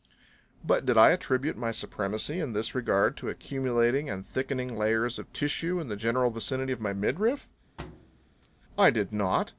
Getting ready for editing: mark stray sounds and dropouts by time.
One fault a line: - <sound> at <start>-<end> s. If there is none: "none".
- thud at 7.8-8.5 s